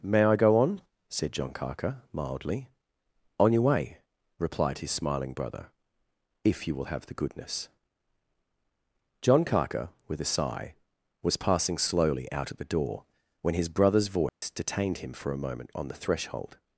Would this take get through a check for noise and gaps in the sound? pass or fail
fail